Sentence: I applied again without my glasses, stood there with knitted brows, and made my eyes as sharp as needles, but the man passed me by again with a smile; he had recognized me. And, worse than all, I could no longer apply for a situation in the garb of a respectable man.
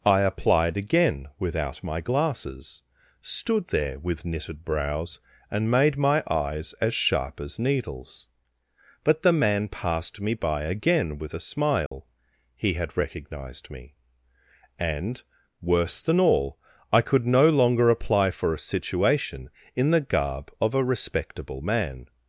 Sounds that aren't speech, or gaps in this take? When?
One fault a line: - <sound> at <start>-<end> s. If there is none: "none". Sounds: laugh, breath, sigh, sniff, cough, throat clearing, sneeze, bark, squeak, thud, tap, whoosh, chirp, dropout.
- dropout at 11.9-11.9 s